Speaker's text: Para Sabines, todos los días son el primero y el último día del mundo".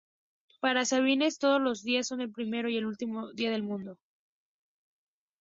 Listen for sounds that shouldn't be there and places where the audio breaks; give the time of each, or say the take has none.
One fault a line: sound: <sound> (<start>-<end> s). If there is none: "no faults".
no faults